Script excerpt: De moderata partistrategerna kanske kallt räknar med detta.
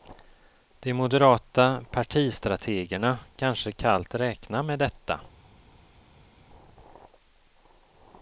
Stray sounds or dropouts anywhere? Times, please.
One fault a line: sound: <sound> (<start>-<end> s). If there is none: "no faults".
no faults